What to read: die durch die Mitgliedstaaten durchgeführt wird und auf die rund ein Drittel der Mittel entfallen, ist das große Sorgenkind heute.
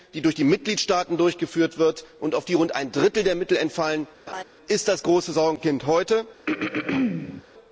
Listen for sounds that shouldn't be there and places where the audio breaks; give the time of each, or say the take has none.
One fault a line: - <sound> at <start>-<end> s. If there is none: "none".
- laugh at 4.3-4.4 s
- throat clearing at 6.5-7.4 s